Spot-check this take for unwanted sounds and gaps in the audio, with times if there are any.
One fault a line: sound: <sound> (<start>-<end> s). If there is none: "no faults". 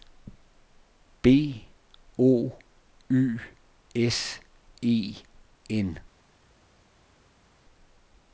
no faults